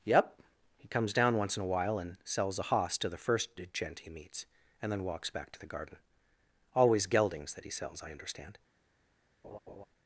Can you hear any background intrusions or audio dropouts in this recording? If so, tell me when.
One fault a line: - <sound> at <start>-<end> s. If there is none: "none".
- laugh at 9.4-9.9 s